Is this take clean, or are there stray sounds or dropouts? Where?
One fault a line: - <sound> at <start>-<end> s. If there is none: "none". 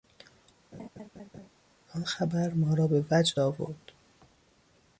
- laugh at 0.7-1.5 s